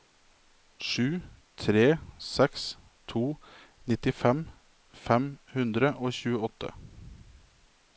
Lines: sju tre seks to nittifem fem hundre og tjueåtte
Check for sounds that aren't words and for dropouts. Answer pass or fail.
pass